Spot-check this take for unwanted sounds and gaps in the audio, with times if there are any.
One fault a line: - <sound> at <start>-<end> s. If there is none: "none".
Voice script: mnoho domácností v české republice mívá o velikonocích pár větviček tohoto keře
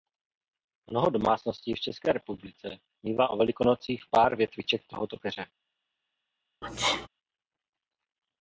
- sneeze at 6.6-7.1 s